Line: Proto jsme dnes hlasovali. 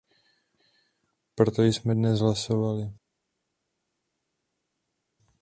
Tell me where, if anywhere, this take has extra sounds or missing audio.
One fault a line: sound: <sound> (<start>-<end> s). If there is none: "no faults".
no faults